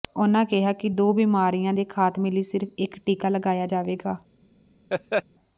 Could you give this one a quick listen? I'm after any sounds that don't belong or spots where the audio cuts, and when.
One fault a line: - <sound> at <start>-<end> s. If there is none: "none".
- laugh at 4.9-5.2 s